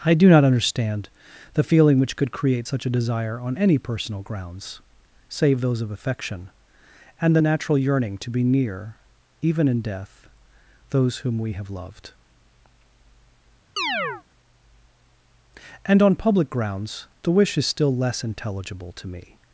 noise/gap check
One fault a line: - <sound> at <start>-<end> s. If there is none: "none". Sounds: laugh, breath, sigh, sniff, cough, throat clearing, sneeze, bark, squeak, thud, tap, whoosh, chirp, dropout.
- chirp at 13.8-14.2 s